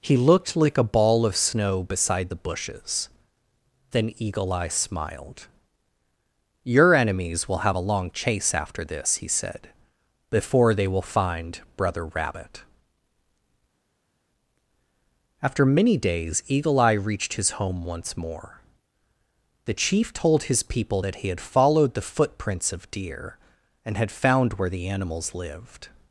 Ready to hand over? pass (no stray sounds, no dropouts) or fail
pass